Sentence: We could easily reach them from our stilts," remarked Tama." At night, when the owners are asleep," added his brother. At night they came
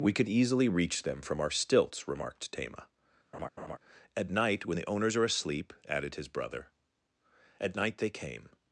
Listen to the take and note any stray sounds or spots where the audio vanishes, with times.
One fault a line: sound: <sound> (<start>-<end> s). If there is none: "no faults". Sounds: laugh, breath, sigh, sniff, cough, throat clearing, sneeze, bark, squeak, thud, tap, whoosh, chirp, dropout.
sound: laugh (3.3-3.8 s)